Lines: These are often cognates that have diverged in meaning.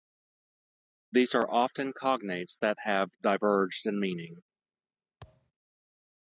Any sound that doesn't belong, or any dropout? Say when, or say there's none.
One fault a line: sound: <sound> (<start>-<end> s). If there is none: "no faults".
sound: thud (5.2-5.5 s)